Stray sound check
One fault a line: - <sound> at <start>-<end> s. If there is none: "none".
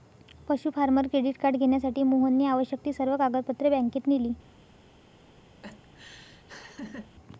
- laugh at 5.6-7.1 s